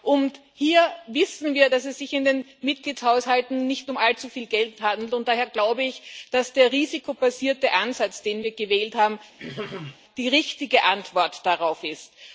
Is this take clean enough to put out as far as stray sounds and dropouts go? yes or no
no